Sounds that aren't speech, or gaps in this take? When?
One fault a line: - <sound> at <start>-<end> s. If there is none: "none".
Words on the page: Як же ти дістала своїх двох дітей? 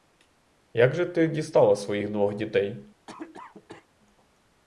- cough at 3.1-3.9 s